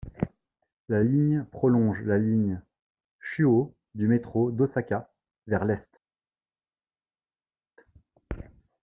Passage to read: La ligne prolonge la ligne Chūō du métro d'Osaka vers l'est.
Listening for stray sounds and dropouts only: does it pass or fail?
pass